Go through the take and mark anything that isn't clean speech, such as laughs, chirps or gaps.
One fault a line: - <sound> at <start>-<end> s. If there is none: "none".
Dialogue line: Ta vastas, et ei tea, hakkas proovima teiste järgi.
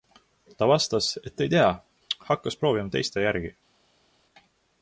none